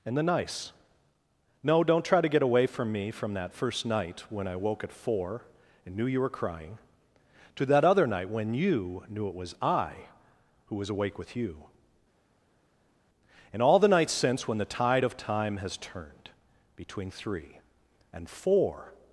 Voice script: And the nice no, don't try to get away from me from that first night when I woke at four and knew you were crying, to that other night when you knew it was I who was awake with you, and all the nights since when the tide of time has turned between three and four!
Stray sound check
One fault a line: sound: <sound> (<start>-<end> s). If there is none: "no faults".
no faults